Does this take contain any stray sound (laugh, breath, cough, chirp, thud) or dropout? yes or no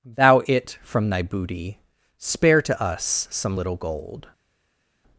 no